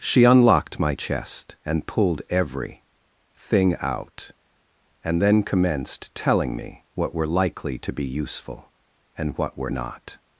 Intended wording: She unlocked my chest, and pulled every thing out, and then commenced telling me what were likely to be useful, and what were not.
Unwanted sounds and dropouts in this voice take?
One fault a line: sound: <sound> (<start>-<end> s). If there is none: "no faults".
no faults